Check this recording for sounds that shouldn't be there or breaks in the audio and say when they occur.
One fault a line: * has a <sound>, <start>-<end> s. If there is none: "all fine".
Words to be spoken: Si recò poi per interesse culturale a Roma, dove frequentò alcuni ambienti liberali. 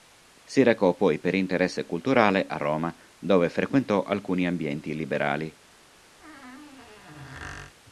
* has a squeak, 6.2-7.7 s